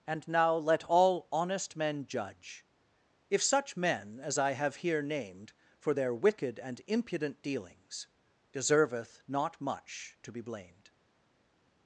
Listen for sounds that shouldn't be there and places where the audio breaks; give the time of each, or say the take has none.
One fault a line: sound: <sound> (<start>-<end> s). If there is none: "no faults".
no faults